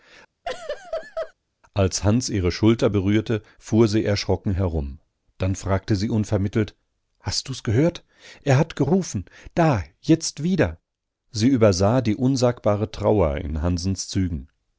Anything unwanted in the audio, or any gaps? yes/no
yes